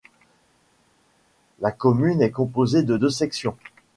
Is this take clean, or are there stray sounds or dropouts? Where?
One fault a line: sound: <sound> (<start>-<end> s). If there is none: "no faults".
no faults